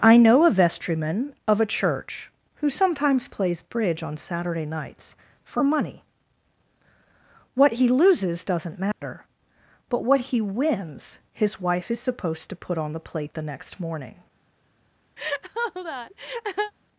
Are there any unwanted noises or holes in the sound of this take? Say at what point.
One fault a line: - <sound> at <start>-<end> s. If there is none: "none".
- dropout at 8.9-9.0 s
- laugh at 15.2-16.7 s